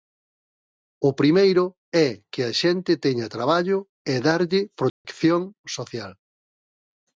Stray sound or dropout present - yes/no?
yes